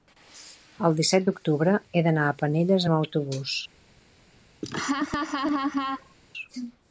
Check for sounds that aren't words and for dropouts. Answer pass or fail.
fail